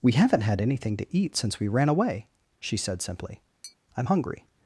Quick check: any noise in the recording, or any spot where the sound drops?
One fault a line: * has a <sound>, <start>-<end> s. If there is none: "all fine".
* has a tap, 3.6-3.8 s